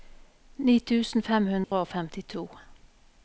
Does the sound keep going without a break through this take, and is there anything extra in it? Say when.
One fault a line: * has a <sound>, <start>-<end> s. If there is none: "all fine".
* has a dropout, 1.6-1.7 s